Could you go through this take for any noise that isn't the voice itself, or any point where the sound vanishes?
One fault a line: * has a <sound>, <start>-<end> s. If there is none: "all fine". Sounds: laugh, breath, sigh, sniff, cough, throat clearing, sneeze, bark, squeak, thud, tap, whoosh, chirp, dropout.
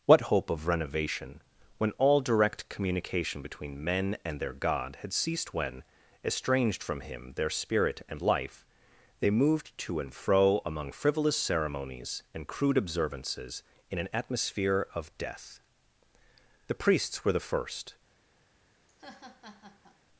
* has a laugh, 18.9-20.0 s